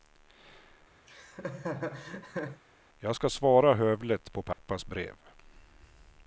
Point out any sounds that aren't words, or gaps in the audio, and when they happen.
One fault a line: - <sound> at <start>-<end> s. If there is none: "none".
- laugh at 1.1-2.6 s
- dropout at 4.5-4.6 s